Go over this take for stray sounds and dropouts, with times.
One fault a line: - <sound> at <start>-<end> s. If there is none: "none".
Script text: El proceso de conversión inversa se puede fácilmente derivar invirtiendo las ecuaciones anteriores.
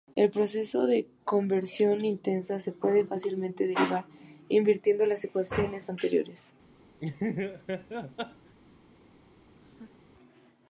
- laugh at 7.0-8.5 s
- laugh at 9.6-10.0 s